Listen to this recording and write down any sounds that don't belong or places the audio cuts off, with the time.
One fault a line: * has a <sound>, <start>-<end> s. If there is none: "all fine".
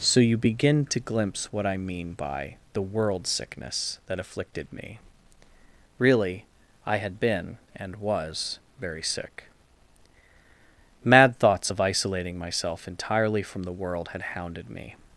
all fine